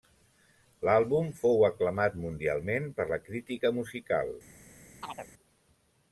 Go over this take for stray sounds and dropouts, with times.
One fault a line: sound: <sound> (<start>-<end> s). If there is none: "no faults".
sound: chirp (5.0-5.3 s)